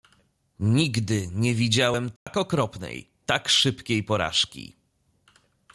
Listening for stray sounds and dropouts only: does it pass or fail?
fail